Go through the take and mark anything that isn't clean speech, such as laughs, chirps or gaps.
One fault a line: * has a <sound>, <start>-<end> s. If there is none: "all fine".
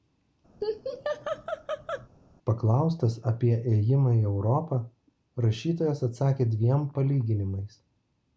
* has a laugh, 0.6-2.1 s